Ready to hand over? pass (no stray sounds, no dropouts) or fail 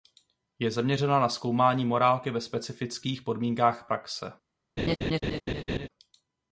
fail